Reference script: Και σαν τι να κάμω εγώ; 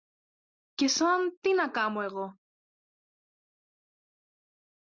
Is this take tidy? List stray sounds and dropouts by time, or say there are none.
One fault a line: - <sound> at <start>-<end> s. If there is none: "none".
none